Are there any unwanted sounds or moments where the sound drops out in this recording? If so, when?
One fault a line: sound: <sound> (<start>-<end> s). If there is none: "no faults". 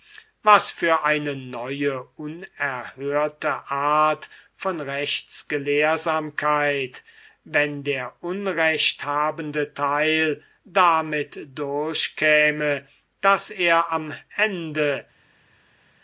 no faults